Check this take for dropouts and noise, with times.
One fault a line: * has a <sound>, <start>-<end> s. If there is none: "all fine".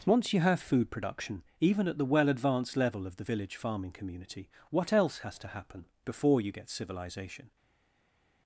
all fine